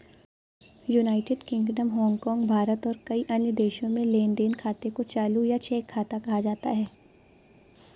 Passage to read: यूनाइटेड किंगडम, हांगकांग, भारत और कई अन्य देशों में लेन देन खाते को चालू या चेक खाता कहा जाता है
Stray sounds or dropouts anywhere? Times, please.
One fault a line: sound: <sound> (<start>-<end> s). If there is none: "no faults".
no faults